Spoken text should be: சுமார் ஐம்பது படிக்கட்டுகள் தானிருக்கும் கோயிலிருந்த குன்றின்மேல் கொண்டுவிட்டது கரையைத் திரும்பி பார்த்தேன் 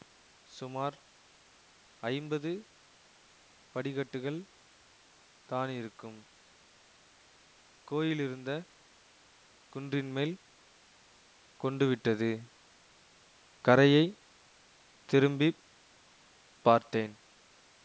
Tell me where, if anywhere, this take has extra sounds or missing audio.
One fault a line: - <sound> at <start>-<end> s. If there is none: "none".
none